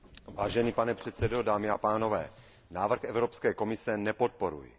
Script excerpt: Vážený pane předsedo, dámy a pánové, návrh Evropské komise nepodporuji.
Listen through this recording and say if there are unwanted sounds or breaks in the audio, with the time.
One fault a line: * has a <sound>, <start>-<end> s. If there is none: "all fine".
all fine